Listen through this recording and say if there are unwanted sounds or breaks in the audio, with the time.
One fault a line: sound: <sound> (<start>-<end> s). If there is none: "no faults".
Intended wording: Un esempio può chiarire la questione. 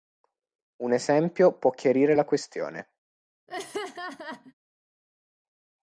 sound: laugh (3.5-4.5 s)